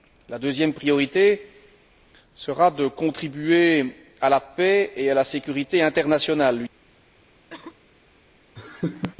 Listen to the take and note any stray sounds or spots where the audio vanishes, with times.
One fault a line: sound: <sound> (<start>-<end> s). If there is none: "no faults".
sound: cough (7.5-7.9 s)
sound: laugh (8.6-9.2 s)